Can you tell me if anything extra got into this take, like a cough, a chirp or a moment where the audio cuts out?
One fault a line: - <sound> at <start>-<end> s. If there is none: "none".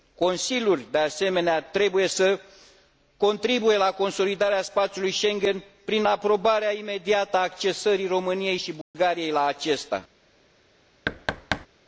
- dropout at 8.8-8.9 s
- thud at 11.1-11.7 s